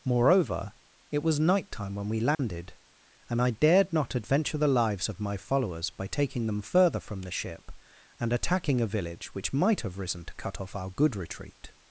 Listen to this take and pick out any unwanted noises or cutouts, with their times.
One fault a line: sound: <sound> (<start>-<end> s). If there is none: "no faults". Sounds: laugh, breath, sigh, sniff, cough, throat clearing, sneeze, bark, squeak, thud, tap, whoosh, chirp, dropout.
sound: dropout (2.3-2.4 s)